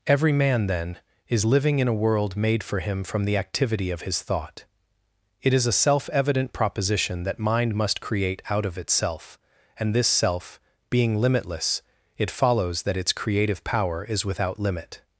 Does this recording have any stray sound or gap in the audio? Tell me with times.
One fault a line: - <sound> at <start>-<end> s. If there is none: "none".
none